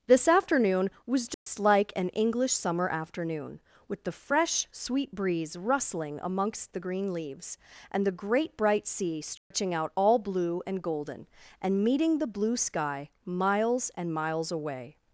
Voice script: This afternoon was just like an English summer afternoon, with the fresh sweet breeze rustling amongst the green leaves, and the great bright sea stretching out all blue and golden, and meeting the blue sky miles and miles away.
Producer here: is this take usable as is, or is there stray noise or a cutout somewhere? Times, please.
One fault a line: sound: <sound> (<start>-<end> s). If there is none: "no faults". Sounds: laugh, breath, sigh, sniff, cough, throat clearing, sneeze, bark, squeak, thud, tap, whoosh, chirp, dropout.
sound: dropout (1.3-1.5 s)
sound: dropout (9.4-9.5 s)